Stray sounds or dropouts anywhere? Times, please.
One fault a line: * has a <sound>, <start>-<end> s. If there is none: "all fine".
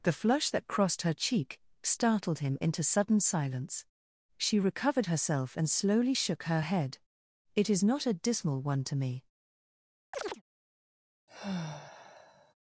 * has a chirp, 10.1-10.4 s
* has a sigh, 11.3-12.5 s